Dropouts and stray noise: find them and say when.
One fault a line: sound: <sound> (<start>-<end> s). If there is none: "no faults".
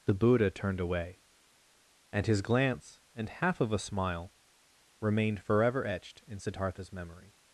no faults